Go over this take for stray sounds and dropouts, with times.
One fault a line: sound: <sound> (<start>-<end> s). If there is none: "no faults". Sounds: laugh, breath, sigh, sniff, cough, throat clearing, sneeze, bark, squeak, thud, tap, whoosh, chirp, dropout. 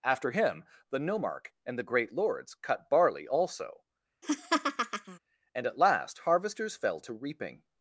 sound: laugh (4.2-5.2 s)